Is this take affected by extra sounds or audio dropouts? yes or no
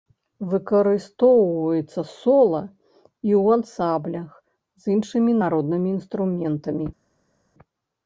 no